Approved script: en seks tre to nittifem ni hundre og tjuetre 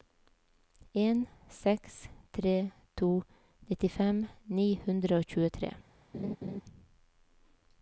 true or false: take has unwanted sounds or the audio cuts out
true